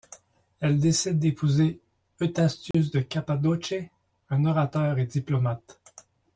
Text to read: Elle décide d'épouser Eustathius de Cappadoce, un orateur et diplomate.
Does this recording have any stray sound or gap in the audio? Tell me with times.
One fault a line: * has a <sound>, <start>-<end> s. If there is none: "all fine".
* has a dropout, 2.7-2.7 s